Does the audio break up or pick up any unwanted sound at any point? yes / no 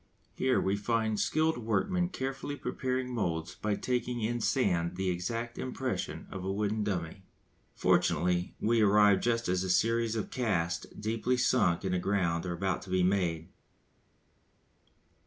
no